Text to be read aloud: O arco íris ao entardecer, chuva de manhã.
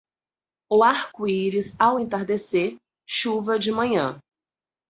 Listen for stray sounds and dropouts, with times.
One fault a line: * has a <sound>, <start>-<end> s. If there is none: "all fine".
all fine